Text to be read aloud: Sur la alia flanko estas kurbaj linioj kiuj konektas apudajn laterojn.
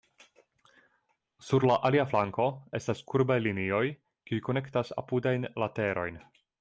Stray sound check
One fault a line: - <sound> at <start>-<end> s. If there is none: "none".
none